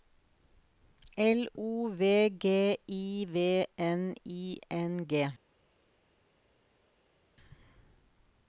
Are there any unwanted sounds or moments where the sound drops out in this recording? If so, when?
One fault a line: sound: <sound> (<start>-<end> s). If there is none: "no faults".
no faults